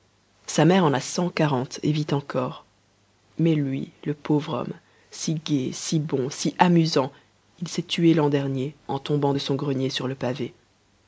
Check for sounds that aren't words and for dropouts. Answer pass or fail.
pass